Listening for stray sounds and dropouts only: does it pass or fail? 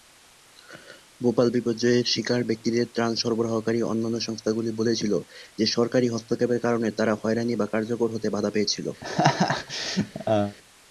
fail